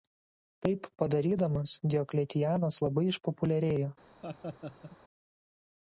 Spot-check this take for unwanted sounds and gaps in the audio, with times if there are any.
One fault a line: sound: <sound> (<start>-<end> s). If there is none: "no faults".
sound: laugh (4.2-5.0 s)